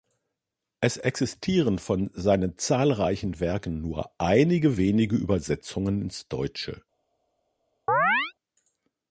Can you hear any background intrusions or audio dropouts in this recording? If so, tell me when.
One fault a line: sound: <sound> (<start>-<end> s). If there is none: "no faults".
sound: chirp (7.9-8.3 s)